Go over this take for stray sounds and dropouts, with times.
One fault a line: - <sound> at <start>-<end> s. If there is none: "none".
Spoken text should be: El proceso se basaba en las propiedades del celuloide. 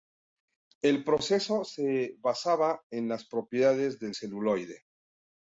none